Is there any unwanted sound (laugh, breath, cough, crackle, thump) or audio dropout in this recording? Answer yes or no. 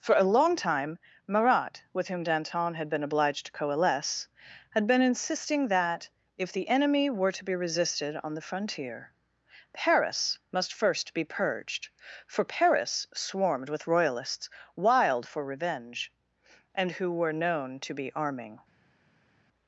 no